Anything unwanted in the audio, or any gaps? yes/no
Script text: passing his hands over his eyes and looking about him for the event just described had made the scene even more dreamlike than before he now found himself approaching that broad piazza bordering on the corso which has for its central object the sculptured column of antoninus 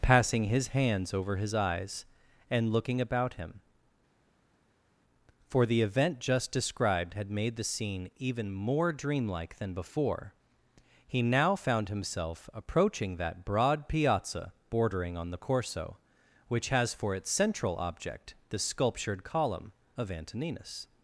no